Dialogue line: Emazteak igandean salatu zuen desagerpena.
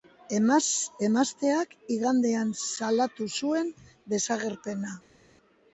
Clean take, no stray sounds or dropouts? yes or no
yes